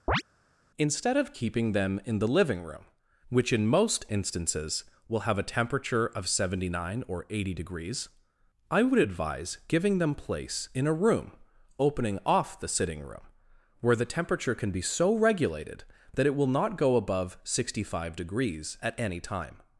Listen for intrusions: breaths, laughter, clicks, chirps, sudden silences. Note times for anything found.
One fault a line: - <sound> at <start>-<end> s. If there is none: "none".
- chirp at 0.1-0.2 s